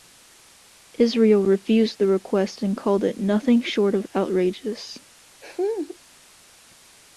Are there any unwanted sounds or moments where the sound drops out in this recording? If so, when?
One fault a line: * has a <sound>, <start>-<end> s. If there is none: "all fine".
* has a laugh, 5.4-6.0 s